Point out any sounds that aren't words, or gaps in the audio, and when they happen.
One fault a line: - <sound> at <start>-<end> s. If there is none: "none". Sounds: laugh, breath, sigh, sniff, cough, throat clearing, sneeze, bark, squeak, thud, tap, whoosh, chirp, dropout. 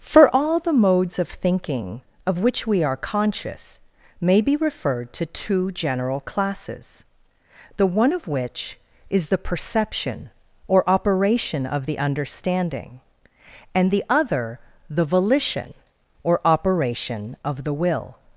none